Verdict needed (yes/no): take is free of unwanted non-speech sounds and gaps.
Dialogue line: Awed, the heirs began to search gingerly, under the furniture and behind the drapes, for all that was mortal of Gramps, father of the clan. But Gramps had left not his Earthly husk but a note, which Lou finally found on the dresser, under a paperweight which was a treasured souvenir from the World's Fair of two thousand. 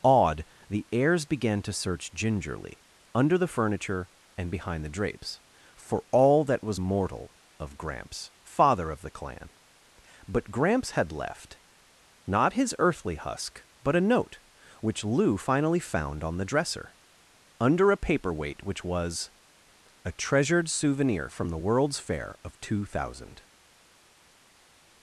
yes